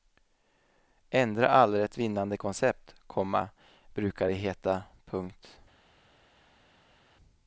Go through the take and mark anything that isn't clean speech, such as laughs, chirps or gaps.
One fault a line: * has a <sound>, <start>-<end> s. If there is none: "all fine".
all fine